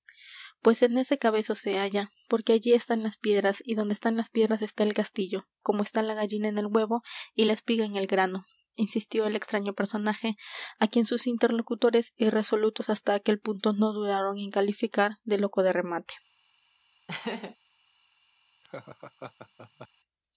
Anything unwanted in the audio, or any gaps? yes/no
yes